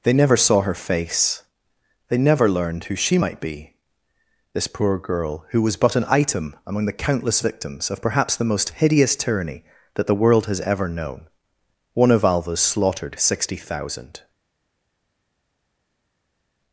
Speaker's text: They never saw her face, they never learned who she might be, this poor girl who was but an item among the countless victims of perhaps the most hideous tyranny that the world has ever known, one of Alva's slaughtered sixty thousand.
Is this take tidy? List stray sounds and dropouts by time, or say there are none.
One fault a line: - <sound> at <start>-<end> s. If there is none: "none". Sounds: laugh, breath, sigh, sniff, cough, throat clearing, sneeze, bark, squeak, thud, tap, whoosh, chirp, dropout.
none